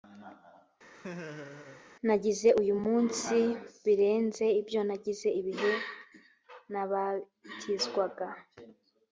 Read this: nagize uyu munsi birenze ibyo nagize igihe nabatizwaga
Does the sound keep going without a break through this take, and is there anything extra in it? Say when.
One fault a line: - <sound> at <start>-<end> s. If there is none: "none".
- laugh at 0.9-1.8 s